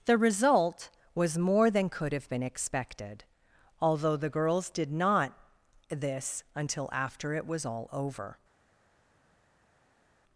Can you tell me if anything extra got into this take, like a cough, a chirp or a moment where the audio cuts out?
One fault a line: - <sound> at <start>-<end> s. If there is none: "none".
none